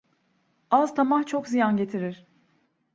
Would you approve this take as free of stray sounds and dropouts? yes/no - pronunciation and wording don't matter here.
yes